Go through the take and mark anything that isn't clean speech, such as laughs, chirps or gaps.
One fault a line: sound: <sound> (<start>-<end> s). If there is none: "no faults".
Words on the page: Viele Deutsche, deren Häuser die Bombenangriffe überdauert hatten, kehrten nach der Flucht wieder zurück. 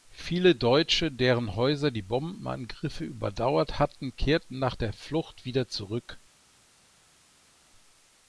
no faults